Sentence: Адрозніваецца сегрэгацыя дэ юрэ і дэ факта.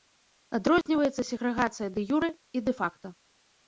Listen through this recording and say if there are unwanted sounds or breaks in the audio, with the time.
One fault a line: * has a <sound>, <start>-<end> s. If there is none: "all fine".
* has a dropout, 0.8-0.9 s